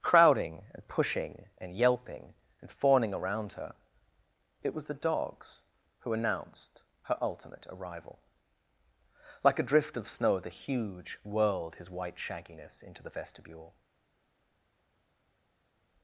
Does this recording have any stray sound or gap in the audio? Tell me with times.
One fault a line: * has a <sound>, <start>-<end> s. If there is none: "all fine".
all fine